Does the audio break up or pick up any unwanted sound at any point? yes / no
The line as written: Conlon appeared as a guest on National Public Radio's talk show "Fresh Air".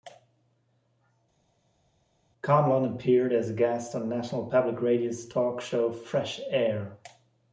no